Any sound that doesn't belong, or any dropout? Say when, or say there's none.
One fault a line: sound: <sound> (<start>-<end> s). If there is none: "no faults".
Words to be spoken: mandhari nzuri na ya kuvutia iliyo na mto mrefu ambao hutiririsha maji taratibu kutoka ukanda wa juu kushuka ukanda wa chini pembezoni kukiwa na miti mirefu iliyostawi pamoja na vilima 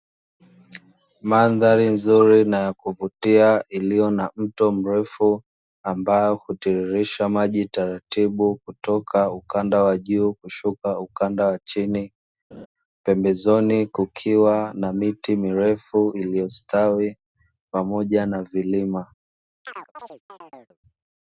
sound: laugh (12.5-12.7 s)
sound: chirp (19.6-20.8 s)